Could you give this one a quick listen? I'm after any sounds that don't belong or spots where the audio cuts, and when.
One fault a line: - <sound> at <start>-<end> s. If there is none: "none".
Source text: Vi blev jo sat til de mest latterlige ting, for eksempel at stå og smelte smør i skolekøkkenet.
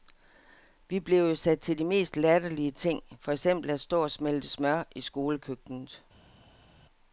none